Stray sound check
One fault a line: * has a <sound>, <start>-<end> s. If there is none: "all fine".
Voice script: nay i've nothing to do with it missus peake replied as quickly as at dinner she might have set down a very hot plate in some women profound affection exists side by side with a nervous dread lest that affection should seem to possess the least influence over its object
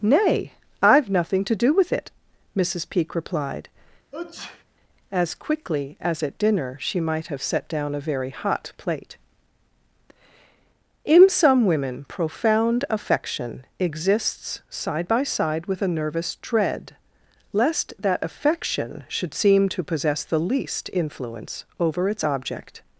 * has a sneeze, 4.1-4.6 s